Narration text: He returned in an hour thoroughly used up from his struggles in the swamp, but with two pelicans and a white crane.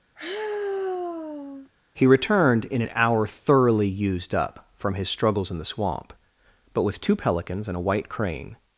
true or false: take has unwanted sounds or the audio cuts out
true